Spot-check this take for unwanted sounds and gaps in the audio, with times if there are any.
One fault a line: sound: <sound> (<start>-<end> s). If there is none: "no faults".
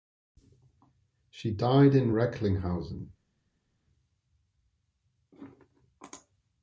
no faults